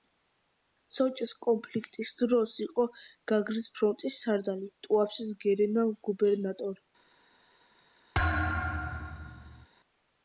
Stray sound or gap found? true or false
true